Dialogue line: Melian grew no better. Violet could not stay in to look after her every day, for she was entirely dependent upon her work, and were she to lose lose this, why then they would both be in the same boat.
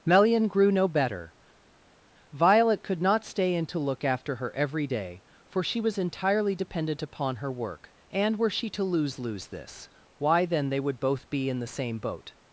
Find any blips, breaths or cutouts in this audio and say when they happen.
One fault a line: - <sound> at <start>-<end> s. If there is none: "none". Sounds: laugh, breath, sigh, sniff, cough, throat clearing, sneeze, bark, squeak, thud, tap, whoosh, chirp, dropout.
none